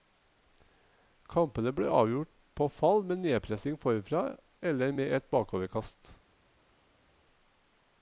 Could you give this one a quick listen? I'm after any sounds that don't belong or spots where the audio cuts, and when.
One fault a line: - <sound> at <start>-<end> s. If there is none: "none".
none